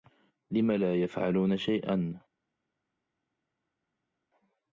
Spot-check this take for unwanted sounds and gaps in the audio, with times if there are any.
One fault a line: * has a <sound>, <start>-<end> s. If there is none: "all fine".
all fine